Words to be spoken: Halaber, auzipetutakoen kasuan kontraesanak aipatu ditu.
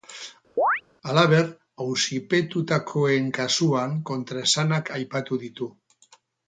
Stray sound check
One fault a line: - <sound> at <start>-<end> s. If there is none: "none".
- chirp at 0.6-0.8 s